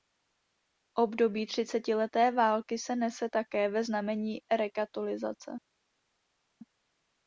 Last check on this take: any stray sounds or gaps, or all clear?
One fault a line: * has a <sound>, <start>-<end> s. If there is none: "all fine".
all fine